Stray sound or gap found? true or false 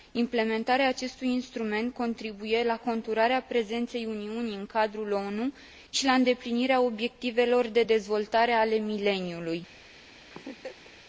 true